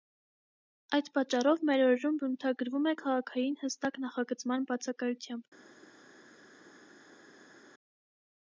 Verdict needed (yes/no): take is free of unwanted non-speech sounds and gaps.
yes